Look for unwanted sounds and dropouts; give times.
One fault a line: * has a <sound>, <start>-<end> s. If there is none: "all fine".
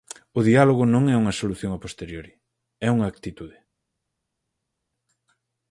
all fine